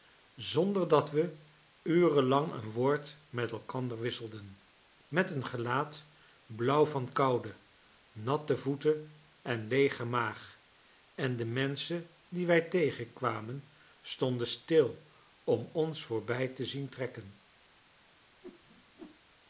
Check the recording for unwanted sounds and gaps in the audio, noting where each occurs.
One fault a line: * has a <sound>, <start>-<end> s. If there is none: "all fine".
* has a whoosh, 18.4-19.2 s